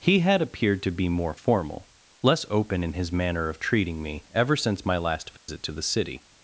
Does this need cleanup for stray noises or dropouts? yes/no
yes